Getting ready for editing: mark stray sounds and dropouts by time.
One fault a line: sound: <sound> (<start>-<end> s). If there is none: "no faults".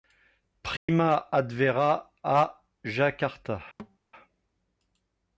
sound: dropout (0.8-0.9 s)
sound: thud (3.8-4.0 s)